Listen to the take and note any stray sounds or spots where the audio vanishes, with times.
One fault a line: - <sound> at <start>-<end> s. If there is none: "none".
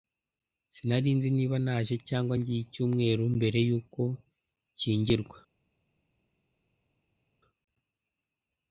none